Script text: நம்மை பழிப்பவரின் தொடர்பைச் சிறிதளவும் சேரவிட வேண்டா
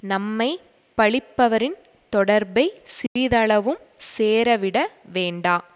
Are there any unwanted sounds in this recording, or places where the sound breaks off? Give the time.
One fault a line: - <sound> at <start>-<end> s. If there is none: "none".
- dropout at 3.1-3.2 s